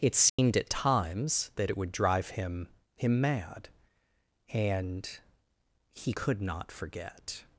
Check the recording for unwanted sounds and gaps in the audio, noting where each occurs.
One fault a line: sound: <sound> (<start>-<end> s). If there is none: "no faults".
sound: dropout (0.3-0.4 s)